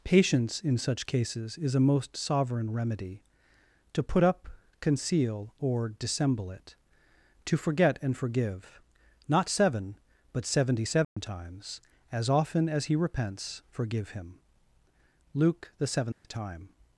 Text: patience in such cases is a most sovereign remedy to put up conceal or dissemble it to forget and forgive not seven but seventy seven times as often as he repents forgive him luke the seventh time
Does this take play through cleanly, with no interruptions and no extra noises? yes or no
no